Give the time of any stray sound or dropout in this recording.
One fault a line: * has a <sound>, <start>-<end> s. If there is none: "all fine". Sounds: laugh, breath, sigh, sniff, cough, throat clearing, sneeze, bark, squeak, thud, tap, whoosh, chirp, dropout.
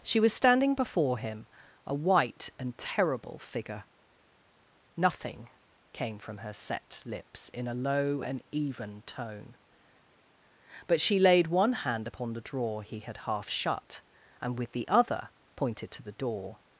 all fine